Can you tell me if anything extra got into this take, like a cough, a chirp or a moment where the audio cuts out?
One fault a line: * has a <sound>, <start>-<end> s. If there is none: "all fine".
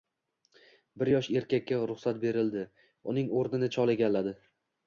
all fine